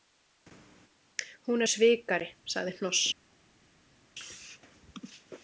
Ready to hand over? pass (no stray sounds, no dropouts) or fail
pass